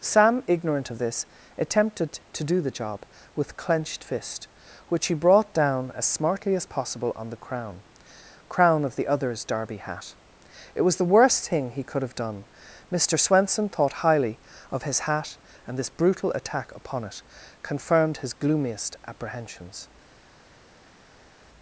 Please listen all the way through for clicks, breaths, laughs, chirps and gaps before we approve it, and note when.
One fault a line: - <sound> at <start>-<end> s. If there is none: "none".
none